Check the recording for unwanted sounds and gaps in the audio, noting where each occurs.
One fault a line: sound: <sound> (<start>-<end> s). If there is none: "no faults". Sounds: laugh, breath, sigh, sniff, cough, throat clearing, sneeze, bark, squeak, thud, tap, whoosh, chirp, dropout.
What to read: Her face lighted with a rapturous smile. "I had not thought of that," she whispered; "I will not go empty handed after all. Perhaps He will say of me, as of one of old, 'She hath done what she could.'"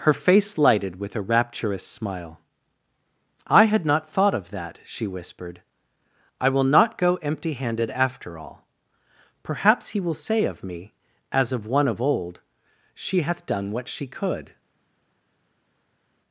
no faults